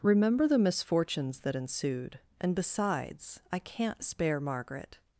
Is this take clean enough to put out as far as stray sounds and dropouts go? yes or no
yes